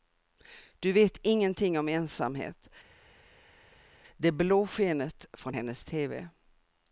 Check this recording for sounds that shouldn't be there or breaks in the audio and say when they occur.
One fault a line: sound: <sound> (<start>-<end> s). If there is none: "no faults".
no faults